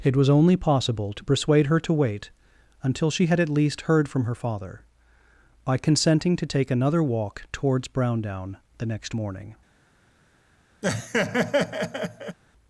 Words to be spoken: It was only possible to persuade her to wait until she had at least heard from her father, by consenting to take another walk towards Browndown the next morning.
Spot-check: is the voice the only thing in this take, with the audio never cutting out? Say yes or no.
no